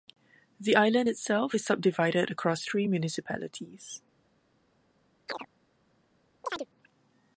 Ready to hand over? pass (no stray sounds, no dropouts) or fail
fail